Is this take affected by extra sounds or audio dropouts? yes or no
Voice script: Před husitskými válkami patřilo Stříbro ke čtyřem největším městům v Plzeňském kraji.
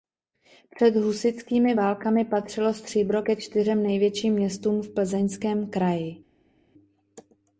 no